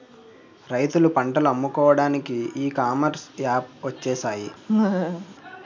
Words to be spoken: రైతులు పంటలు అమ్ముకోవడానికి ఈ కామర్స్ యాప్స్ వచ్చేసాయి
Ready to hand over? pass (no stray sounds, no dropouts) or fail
fail